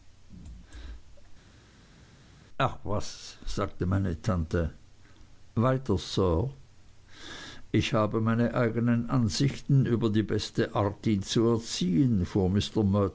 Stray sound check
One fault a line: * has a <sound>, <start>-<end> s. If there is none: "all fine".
all fine